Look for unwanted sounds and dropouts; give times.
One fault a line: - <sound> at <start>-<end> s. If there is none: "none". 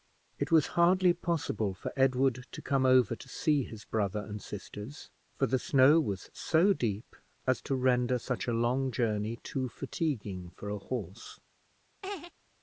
- laugh at 12.0-12.3 s